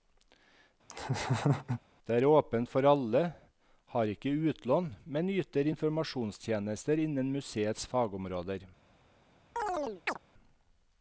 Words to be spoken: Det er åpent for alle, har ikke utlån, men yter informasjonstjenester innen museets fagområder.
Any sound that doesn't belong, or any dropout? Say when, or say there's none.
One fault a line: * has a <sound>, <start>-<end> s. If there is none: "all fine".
* has a laugh, 0.9-1.8 s
* has a chirp, 9.6-10.2 s